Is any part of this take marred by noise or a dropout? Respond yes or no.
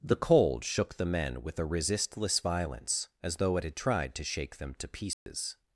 yes